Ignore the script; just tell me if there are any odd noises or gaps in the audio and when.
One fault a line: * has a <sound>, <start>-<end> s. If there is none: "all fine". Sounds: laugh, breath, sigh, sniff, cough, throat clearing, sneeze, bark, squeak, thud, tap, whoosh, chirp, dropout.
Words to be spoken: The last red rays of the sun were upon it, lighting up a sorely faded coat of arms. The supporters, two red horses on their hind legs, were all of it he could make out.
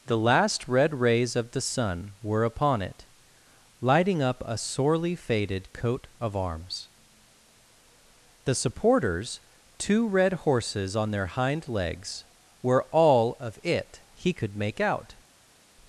all fine